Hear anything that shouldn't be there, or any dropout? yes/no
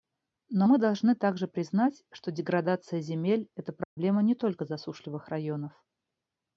yes